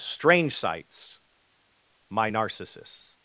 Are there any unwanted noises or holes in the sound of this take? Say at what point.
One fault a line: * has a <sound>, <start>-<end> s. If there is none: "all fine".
all fine